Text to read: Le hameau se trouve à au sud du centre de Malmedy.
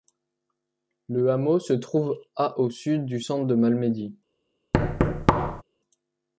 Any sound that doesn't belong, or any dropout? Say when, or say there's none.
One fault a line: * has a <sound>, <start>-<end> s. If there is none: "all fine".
* has a thud, 4.7-5.6 s